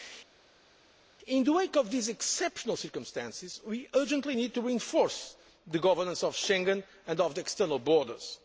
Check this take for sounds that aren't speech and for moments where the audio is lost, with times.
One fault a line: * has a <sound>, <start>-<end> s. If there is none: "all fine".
all fine